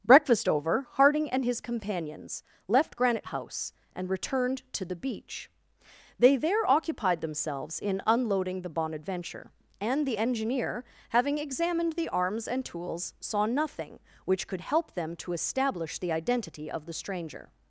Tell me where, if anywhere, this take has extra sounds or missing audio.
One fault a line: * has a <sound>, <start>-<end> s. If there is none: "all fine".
all fine